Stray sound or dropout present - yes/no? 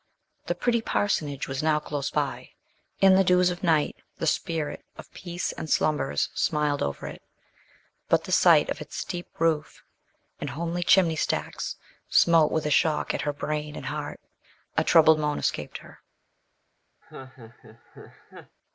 yes